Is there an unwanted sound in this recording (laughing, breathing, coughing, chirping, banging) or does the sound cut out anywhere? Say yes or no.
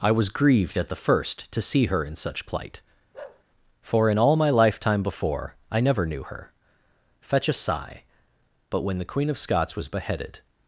yes